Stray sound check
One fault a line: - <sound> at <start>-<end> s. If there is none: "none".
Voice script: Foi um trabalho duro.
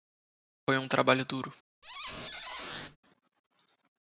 - squeak at 1.8-3.0 s